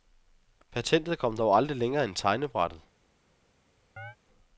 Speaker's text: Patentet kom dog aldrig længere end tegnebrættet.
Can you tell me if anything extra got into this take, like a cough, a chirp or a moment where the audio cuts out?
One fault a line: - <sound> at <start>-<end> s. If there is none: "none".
- chirp at 4.0-4.2 s